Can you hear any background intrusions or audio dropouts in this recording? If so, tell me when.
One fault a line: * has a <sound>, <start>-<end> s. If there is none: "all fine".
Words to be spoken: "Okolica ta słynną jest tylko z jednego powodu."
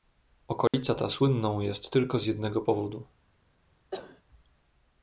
* has a dropout, 0.7-0.7 s
* has a cough, 3.9-4.2 s